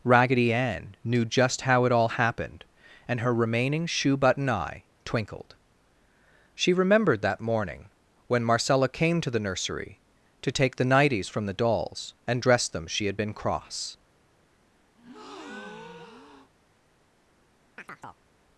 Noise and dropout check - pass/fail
fail